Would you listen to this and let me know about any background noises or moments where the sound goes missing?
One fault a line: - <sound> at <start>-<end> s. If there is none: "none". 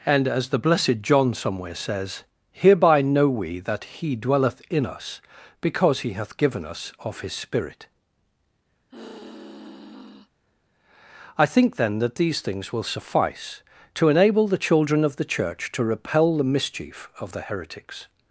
- sigh at 8.9-10.3 s